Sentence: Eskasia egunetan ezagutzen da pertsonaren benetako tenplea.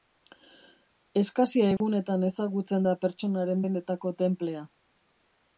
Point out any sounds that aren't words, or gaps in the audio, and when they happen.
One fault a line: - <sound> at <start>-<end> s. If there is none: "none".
- dropout at 1.8-1.8 s